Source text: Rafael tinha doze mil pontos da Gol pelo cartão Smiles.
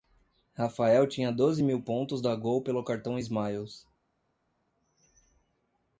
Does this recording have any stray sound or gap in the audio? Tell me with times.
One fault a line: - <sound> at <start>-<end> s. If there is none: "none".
none